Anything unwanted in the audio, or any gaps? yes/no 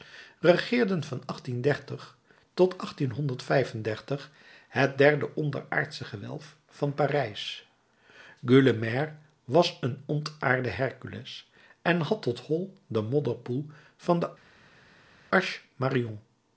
no